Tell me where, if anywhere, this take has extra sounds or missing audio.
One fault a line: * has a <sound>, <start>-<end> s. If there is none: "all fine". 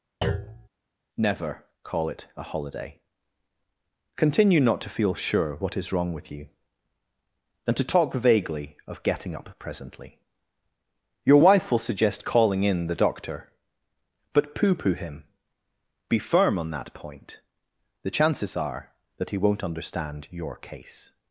* has a thud, 0.2-0.7 s